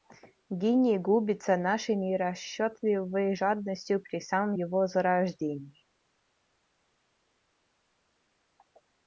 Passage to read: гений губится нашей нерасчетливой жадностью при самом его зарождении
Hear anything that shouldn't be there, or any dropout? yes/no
no